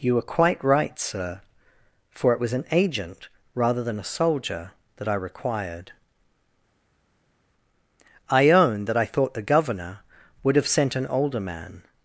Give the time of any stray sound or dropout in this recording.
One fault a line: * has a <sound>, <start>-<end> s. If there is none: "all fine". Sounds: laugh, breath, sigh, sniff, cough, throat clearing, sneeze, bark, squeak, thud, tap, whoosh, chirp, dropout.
all fine